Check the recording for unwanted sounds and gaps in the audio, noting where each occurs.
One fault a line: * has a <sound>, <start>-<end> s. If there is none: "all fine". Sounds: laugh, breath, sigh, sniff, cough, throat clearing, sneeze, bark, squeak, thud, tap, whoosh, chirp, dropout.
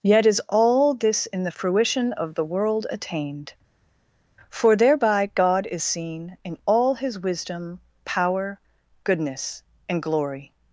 all fine